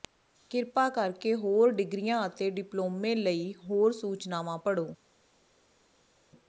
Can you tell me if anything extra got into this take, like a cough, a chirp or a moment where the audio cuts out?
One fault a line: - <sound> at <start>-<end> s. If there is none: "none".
none